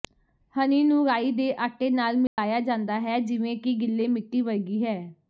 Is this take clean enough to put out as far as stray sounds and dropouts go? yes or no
no